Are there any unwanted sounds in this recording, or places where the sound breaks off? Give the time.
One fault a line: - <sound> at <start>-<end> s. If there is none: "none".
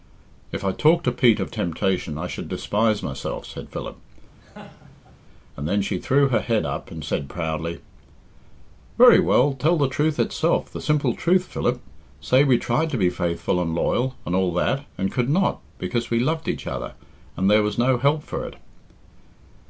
- laugh at 4.4-5.2 s